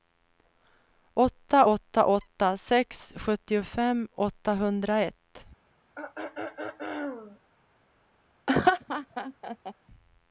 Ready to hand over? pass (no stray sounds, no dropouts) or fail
fail